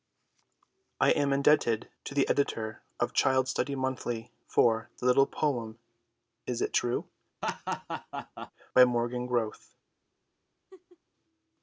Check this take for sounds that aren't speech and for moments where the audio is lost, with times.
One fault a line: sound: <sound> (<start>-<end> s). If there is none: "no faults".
sound: laugh (7.4-8.5 s)
sound: laugh (10.7-11.0 s)